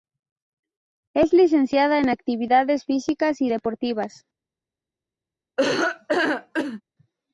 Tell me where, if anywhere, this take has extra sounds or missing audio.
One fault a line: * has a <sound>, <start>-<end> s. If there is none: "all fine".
* has a laugh, 5.6-6.8 s